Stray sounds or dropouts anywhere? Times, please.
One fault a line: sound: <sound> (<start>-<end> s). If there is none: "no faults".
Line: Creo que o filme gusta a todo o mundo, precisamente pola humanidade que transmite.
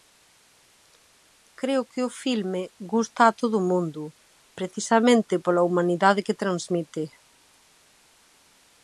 no faults